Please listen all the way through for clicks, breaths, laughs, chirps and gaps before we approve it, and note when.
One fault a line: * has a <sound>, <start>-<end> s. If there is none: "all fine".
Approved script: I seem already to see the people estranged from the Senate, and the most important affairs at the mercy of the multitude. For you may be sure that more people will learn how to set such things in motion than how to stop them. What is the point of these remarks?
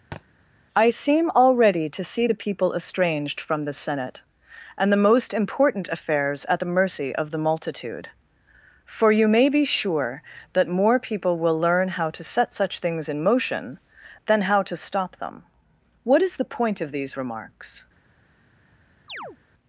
* has a thud, 0.1-0.2 s
* has a chirp, 19.1-19.4 s